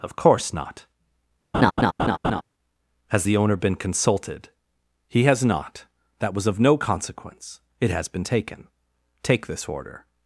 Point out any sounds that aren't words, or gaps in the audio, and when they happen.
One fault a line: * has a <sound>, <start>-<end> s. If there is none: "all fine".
* has a laugh, 1.5-2.4 s